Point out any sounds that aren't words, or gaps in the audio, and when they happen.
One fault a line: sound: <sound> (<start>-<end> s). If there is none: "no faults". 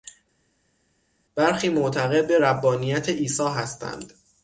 no faults